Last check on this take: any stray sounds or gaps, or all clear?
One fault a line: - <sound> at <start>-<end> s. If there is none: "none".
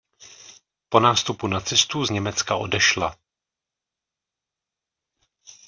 none